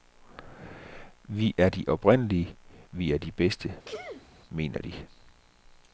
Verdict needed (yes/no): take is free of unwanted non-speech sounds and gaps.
no